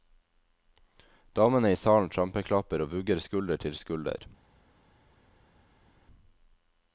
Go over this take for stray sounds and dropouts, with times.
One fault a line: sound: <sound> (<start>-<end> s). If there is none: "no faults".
no faults